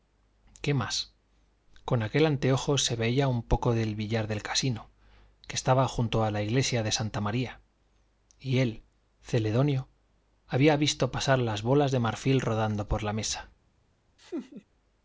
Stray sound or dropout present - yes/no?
yes